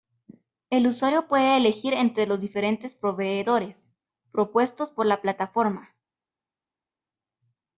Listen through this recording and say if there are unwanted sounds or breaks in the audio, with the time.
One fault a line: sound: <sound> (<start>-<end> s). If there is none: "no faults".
no faults